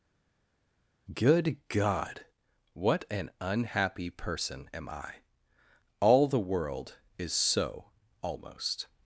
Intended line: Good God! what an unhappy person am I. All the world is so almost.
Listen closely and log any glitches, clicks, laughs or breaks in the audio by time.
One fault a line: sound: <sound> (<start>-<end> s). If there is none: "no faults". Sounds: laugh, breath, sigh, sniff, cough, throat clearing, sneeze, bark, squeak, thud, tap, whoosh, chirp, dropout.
no faults